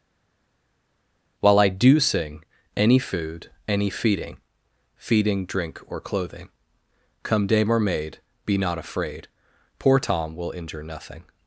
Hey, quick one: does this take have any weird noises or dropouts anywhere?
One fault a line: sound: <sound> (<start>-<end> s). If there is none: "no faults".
no faults